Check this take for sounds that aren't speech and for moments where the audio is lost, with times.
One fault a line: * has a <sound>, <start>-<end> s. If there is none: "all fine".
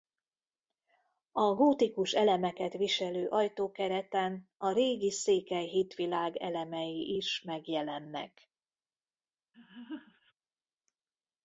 * has a laugh, 9.5-10.3 s